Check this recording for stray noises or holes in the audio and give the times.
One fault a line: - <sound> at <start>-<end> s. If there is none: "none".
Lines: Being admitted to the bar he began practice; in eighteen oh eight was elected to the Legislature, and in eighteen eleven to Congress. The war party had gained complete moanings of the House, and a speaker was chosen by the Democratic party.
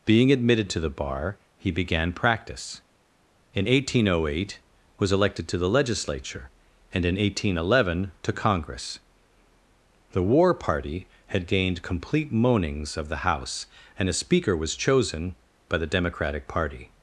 none